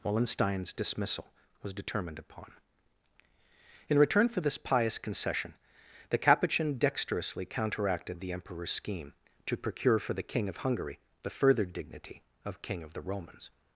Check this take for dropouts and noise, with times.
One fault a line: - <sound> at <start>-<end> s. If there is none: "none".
none